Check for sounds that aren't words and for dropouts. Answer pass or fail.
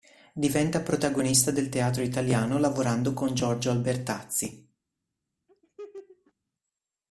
fail